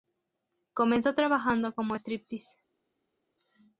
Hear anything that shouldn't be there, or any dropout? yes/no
no